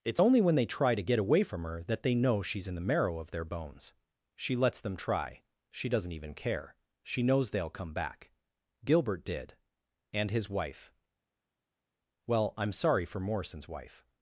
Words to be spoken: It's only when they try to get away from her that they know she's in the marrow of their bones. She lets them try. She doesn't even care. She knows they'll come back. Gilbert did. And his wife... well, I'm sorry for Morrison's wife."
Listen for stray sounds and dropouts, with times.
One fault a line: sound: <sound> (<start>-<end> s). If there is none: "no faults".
no faults